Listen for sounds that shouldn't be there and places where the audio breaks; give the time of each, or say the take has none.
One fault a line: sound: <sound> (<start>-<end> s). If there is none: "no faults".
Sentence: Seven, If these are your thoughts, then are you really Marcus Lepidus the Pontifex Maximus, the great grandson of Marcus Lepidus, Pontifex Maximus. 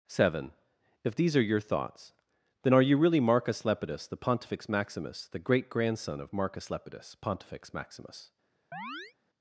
sound: chirp (8.7-9.1 s)